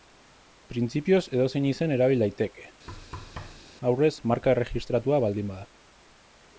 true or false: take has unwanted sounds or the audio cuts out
true